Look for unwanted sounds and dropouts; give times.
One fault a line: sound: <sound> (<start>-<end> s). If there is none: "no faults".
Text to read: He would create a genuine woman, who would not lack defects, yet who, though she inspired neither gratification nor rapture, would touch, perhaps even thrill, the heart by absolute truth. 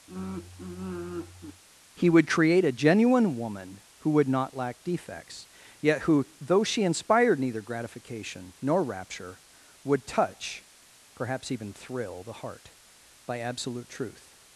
sound: sigh (0.1-1.6 s)